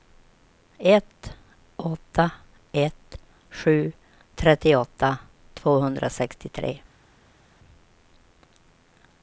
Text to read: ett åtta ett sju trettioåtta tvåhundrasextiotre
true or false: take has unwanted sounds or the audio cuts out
false